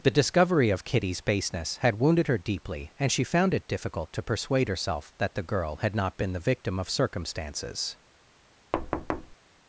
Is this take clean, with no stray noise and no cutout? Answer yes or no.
no